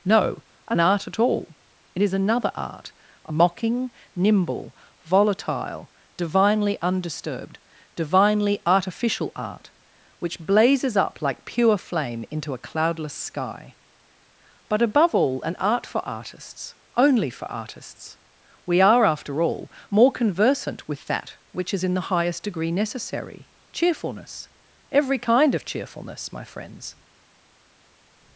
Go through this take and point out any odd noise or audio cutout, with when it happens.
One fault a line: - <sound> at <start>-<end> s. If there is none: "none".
none